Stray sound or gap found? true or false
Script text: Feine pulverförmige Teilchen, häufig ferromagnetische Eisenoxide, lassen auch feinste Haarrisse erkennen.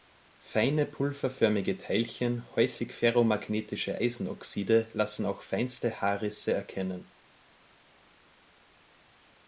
false